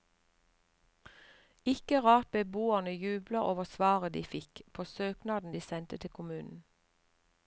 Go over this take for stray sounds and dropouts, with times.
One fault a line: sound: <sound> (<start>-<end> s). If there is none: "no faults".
no faults